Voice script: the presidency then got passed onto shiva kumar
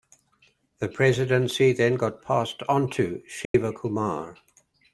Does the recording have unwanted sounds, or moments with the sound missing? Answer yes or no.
yes